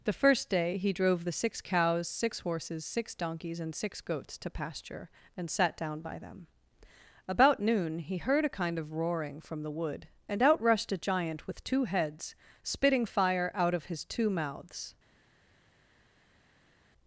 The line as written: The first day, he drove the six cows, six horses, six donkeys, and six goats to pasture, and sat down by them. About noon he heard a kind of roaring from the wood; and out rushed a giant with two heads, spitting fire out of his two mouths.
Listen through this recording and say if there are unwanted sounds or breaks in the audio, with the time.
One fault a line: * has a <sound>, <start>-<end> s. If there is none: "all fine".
all fine